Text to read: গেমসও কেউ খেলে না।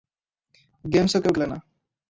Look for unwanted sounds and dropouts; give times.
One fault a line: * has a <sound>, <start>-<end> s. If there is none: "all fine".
all fine